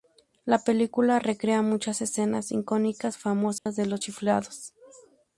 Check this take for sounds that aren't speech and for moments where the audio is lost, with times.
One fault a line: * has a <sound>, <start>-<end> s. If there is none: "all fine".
* has a dropout, 3.6-3.7 s